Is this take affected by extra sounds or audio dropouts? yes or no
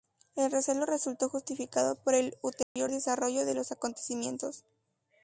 yes